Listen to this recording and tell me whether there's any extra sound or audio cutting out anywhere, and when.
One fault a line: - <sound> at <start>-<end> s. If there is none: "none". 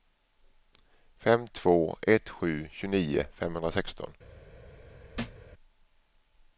- thud at 5.1-5.5 s